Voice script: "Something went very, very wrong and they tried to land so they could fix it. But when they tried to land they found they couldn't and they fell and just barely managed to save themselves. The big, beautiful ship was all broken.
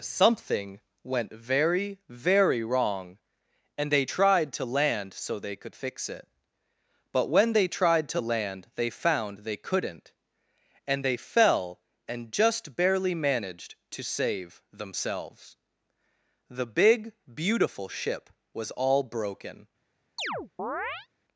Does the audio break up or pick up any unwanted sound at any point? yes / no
yes